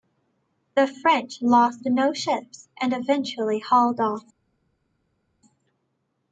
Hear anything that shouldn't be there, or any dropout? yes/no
no